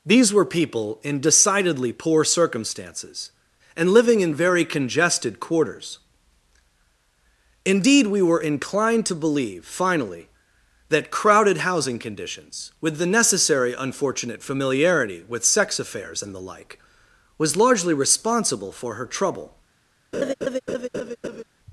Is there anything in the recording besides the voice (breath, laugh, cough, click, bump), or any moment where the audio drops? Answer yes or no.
yes